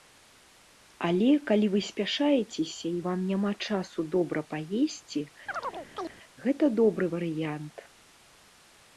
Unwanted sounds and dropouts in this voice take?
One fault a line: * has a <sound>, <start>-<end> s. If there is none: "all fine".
* has a chirp, 5.5-6.2 s